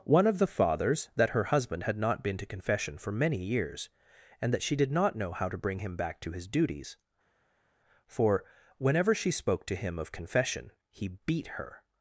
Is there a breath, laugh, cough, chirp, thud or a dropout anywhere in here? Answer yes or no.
no